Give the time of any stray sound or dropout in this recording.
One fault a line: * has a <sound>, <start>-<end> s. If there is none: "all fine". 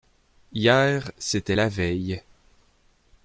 all fine